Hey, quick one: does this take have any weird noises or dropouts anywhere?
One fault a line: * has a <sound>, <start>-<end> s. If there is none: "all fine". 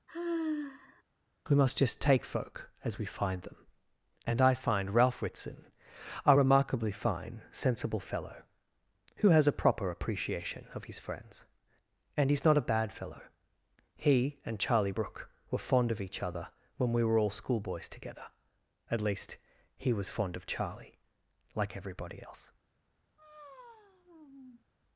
* has a sigh, 0.1-1.0 s
* has a sigh, 23.2-24.6 s